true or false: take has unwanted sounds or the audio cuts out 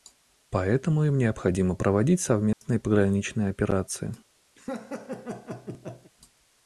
true